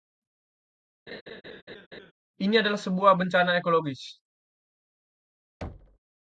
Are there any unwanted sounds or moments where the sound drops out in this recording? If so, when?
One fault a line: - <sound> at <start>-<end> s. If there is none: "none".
- laugh at 1.1-2.1 s
- thud at 5.6-6.0 s